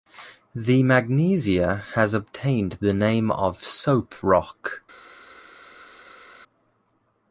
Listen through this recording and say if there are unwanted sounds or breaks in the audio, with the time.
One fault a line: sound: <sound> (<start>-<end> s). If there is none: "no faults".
no faults